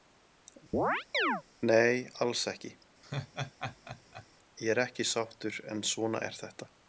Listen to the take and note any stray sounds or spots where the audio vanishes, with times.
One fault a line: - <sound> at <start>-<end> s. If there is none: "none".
- chirp at 0.7-1.4 s
- laugh at 3.0-4.3 s